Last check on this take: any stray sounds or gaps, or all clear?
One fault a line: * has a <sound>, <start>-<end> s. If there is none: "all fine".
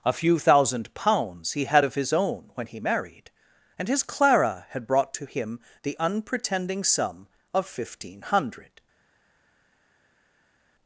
all fine